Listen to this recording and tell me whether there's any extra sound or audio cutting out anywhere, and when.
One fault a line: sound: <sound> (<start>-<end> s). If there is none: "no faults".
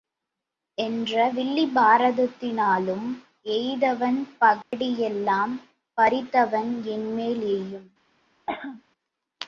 sound: dropout (4.6-4.7 s)
sound: cough (8.5-8.8 s)